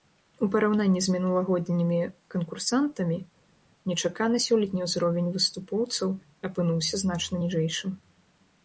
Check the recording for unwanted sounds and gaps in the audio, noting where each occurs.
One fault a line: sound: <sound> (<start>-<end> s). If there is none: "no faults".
no faults